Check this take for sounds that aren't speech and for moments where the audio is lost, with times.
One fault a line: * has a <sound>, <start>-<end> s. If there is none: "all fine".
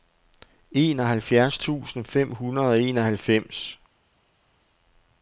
all fine